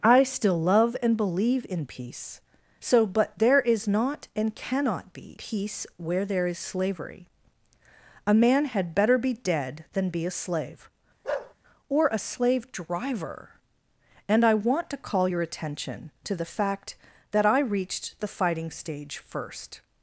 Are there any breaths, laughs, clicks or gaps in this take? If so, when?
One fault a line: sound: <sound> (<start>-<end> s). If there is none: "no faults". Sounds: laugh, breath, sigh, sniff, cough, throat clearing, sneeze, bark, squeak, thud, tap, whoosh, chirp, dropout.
sound: bark (11.2-11.5 s)